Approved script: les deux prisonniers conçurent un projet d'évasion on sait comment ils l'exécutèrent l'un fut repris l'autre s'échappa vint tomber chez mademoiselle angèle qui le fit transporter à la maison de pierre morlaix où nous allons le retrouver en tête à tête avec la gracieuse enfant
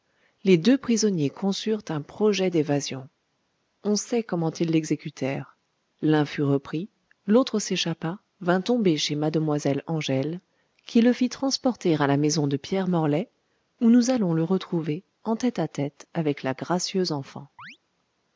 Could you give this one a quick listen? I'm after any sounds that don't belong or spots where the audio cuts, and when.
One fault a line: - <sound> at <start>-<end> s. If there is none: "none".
- chirp at 17.6-17.8 s